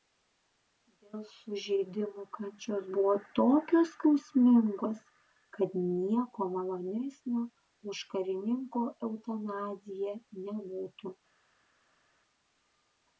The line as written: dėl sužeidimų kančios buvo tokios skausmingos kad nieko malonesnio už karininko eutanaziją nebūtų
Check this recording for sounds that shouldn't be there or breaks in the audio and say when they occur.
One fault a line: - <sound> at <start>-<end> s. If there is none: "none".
none